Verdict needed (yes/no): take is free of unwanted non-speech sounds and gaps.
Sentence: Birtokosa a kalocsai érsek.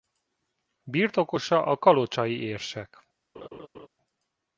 no